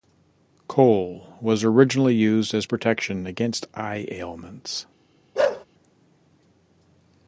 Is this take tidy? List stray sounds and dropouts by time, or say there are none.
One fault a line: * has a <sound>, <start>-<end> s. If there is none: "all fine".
* has a bark, 5.4-5.7 s